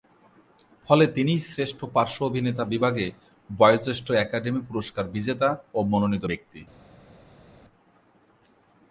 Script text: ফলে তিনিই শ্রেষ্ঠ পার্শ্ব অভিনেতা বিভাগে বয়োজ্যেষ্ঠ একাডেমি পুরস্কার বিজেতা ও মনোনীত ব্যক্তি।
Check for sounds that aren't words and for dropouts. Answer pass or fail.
pass